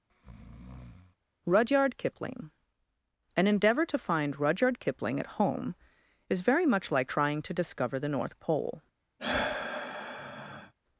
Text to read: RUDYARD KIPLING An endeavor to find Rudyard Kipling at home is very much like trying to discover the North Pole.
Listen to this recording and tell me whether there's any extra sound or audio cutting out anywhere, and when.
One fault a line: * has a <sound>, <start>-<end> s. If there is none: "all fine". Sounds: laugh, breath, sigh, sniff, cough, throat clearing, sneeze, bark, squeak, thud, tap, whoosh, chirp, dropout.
* has a breath, 0.1-1.2 s
* has a sigh, 9.2-10.7 s